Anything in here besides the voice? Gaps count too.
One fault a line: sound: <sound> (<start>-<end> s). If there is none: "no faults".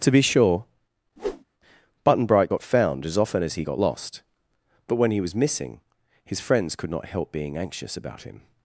sound: whoosh (1.2-1.4 s)